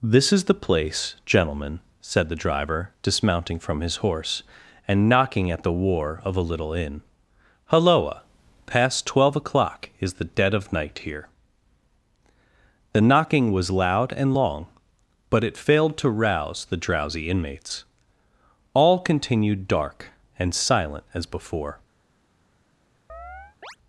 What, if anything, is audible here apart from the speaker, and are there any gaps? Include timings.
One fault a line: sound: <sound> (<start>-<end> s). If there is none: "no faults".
sound: chirp (23.1-23.8 s)